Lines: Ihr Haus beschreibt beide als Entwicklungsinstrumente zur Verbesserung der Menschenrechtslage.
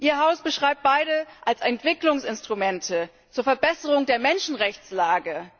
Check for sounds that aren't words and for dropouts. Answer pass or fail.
pass